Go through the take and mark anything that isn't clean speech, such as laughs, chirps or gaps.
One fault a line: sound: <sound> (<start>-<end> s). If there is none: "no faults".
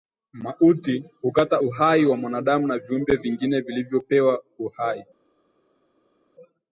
no faults